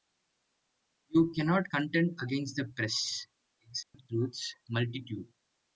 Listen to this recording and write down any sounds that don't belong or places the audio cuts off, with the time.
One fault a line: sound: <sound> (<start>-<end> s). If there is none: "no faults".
sound: dropout (3.8-3.9 s)